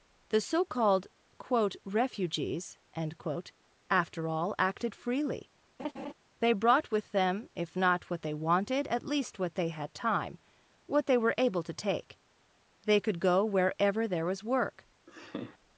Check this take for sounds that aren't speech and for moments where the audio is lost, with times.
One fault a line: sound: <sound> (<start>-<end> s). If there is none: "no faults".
sound: laugh (5.8-6.1 s)
sound: laugh (15.1-15.6 s)